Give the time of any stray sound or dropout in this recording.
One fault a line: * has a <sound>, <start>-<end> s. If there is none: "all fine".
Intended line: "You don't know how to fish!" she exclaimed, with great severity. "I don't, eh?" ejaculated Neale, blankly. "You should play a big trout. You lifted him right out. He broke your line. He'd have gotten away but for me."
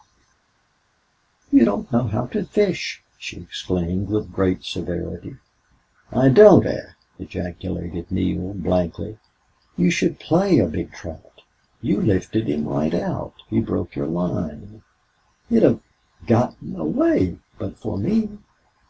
all fine